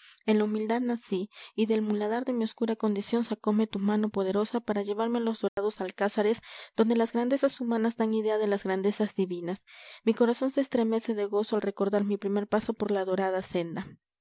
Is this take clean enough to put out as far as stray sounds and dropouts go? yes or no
no